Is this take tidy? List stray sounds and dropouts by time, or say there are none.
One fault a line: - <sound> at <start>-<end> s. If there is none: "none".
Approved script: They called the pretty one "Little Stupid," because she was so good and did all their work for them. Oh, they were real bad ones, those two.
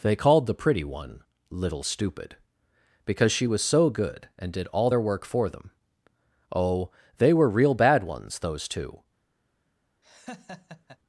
- laugh at 10.0-11.0 s